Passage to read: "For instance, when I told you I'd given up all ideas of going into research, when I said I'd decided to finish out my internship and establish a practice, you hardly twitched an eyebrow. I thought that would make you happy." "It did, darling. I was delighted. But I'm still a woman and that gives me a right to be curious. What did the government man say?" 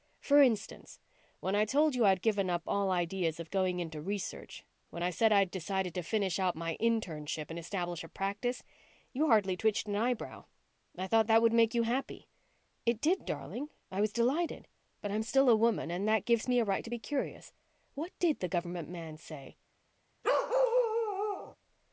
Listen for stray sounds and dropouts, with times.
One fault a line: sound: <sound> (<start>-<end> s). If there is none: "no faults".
sound: bark (20.2-21.6 s)